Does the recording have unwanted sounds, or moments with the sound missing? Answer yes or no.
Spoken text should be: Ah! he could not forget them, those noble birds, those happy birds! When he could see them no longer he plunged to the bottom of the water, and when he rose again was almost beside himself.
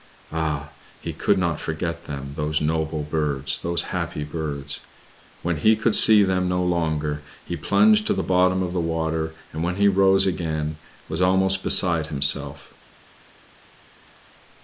no